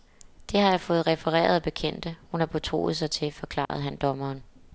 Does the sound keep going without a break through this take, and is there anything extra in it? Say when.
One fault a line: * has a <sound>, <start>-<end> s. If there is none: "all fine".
* has a dropout, 3.7-3.7 s